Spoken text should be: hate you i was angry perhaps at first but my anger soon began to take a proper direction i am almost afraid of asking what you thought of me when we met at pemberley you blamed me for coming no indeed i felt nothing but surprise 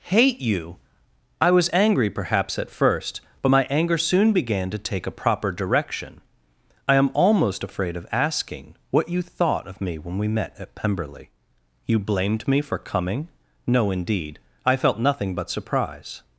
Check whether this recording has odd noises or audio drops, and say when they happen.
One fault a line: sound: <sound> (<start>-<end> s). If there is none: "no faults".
no faults